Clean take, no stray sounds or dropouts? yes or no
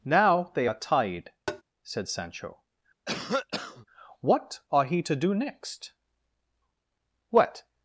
no